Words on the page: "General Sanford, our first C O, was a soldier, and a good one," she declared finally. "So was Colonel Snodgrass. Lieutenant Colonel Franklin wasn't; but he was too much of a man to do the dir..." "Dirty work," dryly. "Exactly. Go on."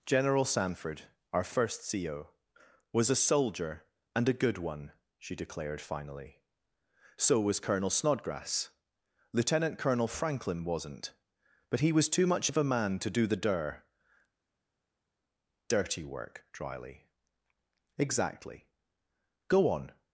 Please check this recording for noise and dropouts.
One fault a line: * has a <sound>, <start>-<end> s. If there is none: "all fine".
all fine